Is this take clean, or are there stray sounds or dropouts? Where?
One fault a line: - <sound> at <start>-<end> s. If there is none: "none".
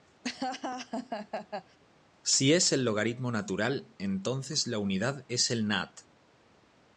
- laugh at 0.2-1.8 s